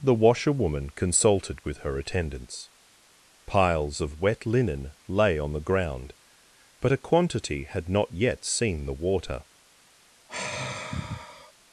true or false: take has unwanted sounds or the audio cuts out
true